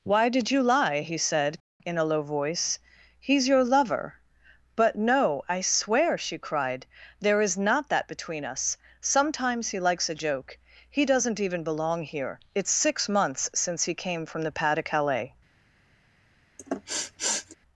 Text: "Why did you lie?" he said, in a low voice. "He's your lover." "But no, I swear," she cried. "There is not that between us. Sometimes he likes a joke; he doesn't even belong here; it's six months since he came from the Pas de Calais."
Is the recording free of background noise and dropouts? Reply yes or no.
no